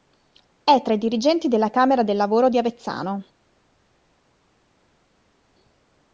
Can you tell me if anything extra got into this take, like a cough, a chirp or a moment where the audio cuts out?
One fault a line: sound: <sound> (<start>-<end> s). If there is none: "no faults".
no faults